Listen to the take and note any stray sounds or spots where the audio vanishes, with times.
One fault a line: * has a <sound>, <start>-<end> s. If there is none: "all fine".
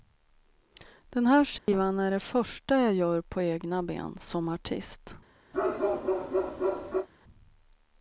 * has a dropout, 1.6-1.7 s
* has a bark, 5.5-7.1 s